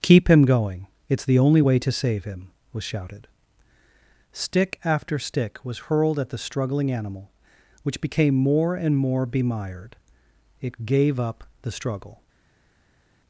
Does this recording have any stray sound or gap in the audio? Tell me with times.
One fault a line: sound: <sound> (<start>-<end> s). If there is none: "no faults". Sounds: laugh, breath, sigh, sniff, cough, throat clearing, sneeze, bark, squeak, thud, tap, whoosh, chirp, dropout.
no faults